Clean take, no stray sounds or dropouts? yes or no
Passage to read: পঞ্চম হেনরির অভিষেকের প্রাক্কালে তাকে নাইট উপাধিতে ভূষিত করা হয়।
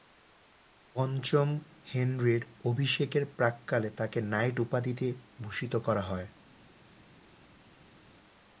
yes